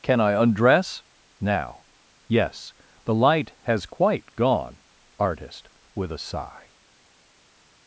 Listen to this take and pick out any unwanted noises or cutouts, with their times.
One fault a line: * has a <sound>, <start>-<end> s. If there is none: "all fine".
all fine